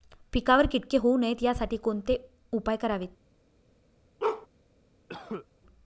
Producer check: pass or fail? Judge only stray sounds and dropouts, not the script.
fail